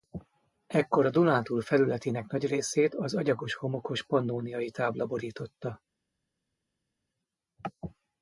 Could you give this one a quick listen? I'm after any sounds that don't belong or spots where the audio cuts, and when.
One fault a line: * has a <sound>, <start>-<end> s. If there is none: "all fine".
all fine